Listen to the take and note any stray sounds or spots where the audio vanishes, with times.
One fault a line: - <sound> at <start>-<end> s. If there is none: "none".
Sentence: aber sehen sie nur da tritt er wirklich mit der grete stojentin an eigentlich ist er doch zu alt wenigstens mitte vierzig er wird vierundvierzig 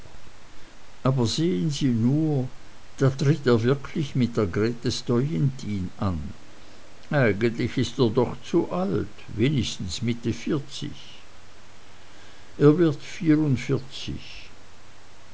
none